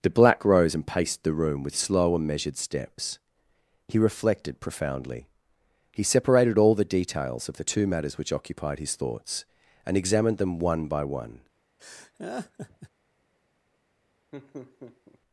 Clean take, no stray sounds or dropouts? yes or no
no